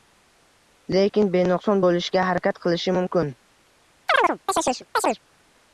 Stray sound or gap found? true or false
true